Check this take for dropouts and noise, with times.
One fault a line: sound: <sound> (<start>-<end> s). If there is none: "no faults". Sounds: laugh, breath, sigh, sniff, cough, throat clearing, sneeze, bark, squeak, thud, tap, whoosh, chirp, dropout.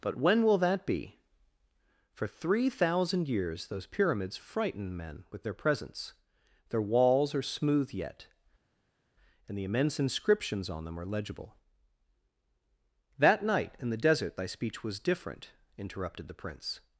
no faults